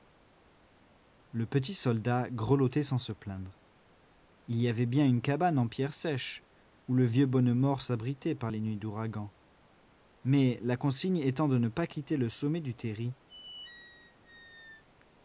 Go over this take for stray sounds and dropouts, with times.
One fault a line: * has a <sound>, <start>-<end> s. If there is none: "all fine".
* has a squeak, 13.3-14.8 s